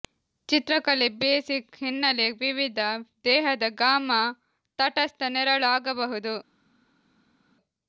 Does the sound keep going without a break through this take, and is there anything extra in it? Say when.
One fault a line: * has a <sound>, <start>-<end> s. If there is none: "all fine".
all fine